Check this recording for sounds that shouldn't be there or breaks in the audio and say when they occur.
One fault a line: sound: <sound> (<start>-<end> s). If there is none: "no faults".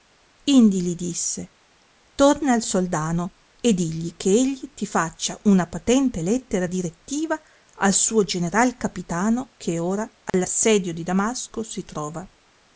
sound: dropout (10.3-10.3 s)